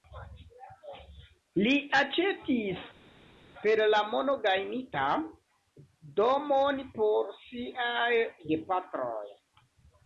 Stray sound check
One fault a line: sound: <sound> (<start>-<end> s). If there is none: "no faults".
no faults